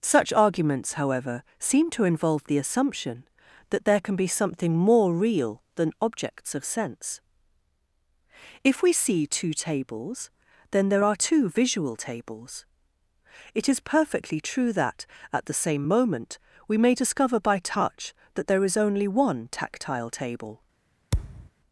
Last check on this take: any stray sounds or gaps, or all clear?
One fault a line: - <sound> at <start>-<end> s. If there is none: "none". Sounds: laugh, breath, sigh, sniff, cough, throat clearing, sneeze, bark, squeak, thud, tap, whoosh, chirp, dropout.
- thud at 21.1-21.5 s